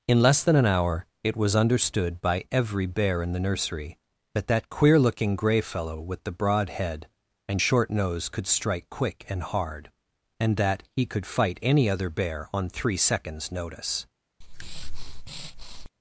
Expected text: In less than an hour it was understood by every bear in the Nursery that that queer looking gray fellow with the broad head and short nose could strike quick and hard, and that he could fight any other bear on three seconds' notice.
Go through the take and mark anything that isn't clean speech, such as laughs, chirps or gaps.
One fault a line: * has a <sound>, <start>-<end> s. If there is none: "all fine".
* has a breath, 14.4-15.9 s